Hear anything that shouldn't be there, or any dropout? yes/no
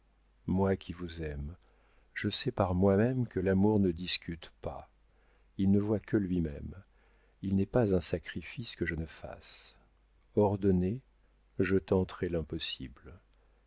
no